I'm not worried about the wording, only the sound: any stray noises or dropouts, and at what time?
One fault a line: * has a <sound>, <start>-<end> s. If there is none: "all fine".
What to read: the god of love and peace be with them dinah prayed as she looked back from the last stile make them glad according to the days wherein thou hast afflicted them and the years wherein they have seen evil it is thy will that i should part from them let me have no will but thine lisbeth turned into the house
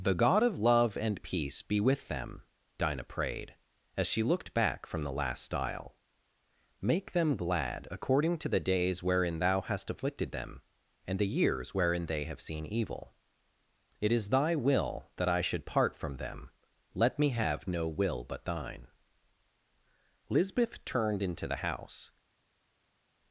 all fine